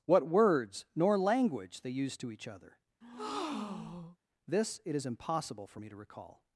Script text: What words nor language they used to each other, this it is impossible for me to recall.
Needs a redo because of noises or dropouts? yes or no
yes